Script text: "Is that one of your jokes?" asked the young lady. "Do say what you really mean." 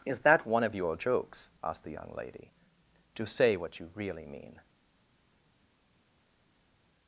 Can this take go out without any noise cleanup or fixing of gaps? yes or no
yes